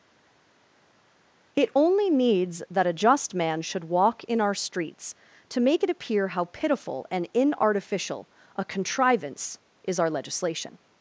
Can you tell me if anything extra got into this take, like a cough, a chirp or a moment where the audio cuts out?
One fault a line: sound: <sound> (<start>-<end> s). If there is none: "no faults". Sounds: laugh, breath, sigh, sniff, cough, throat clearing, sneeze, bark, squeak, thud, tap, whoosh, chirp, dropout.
no faults